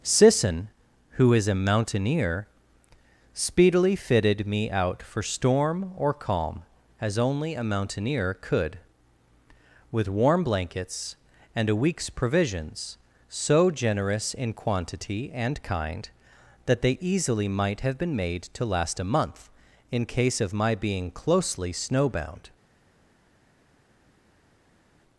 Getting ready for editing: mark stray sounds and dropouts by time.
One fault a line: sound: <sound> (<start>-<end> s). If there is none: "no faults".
no faults